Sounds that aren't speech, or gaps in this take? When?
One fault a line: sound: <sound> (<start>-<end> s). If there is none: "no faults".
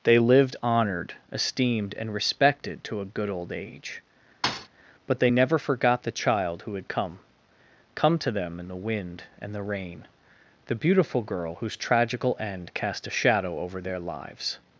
sound: thud (4.4-4.7 s)